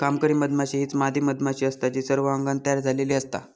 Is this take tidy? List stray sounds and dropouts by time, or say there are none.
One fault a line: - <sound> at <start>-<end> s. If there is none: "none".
none